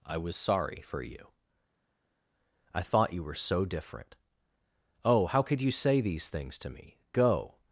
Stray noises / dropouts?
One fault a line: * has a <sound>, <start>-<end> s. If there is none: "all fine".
all fine